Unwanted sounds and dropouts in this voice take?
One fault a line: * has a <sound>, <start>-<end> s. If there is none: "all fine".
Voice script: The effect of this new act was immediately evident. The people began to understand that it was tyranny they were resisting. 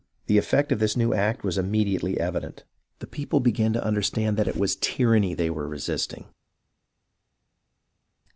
all fine